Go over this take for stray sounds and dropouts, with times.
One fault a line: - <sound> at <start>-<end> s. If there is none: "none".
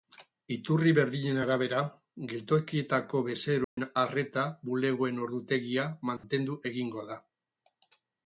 - dropout at 3.6-3.8 s
- dropout at 6.2-6.2 s